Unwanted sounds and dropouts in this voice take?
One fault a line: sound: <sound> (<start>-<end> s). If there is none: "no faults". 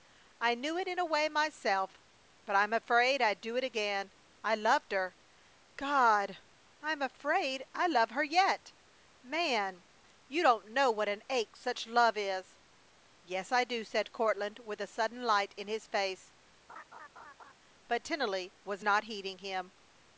sound: laugh (16.7-17.5 s)